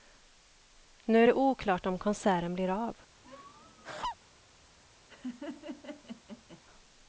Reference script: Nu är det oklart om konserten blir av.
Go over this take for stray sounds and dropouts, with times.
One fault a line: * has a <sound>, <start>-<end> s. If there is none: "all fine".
* has a laugh, 3.2-4.2 s
* has a laugh, 5.1-6.6 s